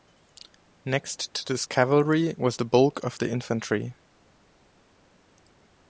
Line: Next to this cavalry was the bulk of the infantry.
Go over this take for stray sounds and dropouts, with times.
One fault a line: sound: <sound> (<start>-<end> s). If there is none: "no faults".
no faults